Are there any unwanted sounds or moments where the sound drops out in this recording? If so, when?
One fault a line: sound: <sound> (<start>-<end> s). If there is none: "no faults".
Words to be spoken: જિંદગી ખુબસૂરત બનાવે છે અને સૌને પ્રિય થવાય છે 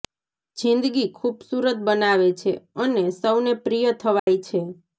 sound: dropout (4.2-4.3 s)